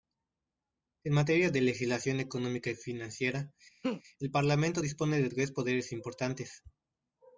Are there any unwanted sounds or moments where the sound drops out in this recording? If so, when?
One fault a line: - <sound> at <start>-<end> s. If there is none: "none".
- laugh at 3.8-4.0 s